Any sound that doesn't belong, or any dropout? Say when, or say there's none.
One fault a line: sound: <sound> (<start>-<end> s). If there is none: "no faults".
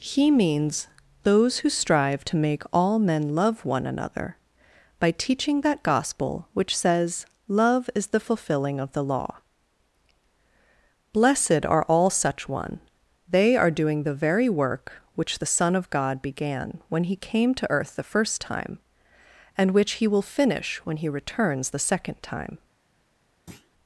sound: thud (23.5-23.7 s)